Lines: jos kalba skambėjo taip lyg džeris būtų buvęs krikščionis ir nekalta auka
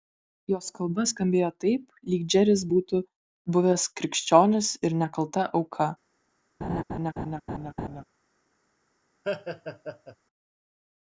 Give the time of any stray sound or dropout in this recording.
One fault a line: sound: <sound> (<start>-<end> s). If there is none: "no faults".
sound: laugh (6.6-8.0 s)
sound: laugh (9.2-10.2 s)